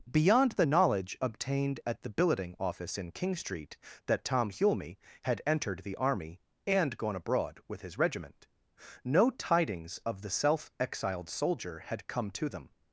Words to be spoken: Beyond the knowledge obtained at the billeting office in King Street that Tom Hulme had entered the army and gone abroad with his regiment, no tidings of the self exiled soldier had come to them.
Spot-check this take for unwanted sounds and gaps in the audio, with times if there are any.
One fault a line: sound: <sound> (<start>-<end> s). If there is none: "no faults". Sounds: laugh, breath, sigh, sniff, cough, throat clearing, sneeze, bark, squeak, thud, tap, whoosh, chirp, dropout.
no faults